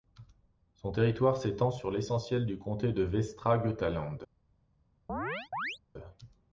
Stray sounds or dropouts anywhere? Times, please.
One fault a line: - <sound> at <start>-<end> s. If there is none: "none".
- chirp at 5.1-5.8 s